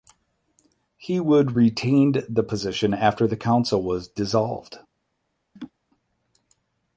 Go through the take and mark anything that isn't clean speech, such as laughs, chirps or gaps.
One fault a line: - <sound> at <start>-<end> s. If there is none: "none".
- laugh at 5.6-5.7 s